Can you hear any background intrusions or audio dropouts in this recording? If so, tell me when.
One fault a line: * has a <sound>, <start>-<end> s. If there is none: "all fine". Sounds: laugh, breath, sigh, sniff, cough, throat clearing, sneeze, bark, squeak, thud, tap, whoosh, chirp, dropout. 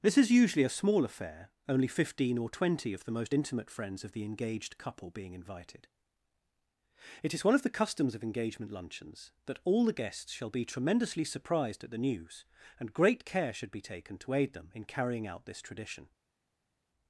all fine